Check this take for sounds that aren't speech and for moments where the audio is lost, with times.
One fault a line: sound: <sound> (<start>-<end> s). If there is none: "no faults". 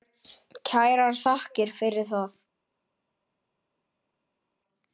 no faults